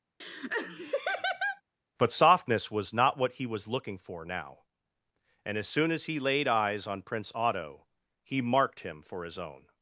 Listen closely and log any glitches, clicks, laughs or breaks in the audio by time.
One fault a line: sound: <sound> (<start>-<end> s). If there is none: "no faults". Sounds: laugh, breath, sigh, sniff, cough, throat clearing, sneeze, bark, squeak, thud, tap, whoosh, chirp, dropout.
sound: laugh (0.2-1.6 s)